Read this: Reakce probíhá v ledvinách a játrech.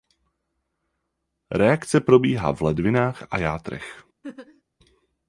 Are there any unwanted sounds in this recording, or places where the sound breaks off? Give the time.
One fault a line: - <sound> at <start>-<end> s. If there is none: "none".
- laugh at 4.2-4.6 s